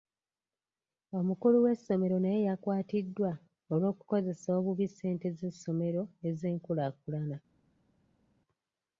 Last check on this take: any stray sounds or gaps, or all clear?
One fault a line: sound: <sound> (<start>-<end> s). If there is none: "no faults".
no faults